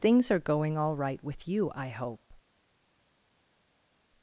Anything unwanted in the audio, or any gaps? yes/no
no